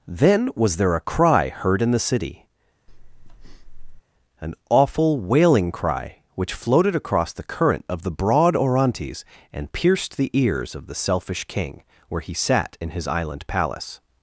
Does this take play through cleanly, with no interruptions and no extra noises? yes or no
no